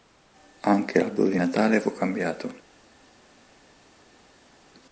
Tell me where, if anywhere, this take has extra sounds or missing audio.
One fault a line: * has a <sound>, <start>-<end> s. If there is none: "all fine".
all fine